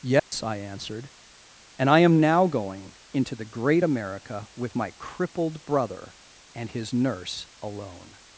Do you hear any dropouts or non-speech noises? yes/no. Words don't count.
yes